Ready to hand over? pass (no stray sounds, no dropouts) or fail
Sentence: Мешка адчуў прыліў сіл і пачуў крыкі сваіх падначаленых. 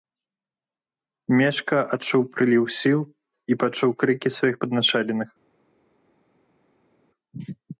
pass